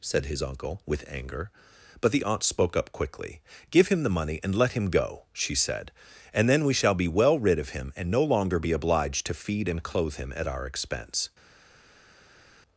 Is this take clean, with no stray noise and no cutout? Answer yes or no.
yes